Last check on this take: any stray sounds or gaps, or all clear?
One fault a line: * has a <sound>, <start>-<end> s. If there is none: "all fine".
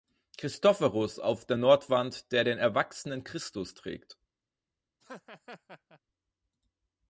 * has a laugh, 5.0-6.0 s